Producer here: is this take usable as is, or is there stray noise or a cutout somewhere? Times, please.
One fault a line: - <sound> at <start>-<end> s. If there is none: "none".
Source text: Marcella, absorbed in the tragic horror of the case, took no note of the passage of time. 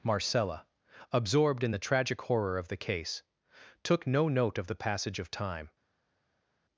none